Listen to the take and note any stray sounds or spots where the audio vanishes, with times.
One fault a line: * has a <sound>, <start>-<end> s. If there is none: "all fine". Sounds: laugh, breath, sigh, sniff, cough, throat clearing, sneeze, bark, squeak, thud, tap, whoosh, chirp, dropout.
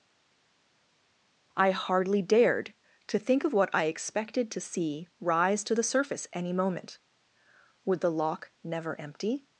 all fine